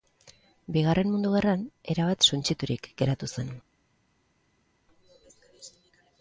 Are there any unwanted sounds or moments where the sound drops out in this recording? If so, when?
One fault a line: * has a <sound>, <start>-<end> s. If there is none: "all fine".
all fine